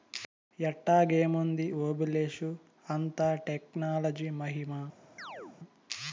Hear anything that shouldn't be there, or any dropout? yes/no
yes